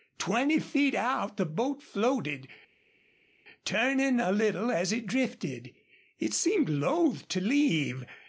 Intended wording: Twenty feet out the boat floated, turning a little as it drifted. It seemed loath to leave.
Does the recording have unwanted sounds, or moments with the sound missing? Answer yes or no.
no